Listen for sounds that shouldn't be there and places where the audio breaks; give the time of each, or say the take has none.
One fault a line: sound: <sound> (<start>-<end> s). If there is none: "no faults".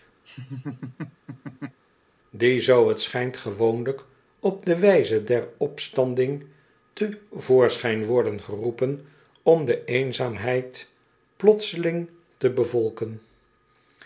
sound: laugh (0.2-1.8 s)